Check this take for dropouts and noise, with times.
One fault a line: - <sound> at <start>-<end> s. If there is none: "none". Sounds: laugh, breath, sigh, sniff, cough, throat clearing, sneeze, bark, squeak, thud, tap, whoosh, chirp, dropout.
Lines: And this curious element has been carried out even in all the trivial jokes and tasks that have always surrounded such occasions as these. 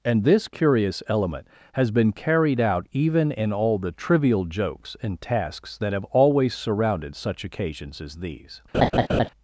- laugh at 8.7-9.3 s